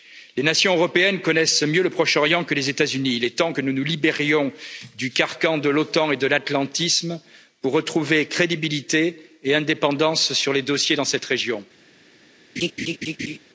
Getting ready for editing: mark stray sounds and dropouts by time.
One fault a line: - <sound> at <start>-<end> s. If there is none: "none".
- laugh at 12.6-13.4 s